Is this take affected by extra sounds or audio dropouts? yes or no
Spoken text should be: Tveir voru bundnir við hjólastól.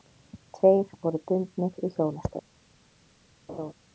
yes